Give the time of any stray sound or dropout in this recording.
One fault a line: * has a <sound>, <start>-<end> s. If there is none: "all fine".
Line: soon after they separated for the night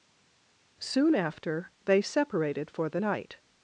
all fine